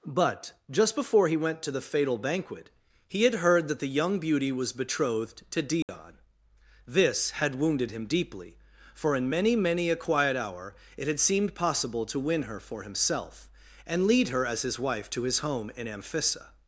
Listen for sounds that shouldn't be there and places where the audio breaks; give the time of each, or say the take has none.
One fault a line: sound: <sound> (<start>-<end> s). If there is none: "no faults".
sound: dropout (5.8-5.9 s)